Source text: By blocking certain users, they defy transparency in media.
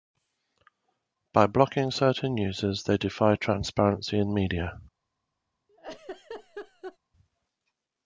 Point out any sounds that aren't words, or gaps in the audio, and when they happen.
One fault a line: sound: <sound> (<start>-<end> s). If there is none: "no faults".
sound: laugh (5.7-7.0 s)